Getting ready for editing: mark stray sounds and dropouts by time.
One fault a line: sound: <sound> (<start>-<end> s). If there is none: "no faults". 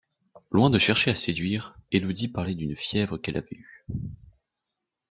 no faults